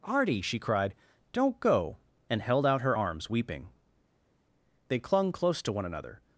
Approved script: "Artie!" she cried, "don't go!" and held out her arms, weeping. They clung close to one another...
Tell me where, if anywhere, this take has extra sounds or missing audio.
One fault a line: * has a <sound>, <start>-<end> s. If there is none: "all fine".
all fine